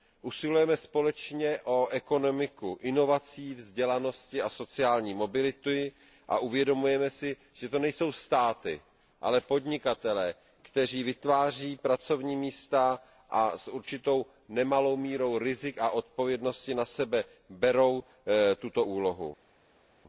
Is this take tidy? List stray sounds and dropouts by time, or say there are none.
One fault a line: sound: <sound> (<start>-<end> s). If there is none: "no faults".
no faults